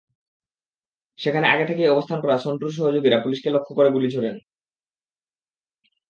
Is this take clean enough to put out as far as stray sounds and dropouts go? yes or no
yes